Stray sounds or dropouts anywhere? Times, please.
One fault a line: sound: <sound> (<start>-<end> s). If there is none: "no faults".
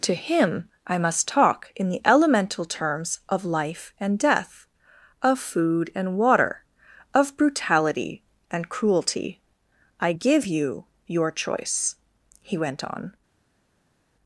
no faults